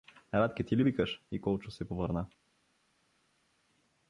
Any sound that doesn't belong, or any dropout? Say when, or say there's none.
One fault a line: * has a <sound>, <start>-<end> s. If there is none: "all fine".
all fine